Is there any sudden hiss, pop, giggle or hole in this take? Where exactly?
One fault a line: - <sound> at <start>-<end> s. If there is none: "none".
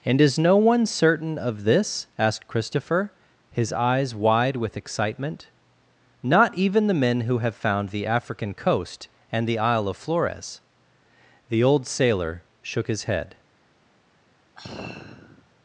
- sigh at 14.6-15.5 s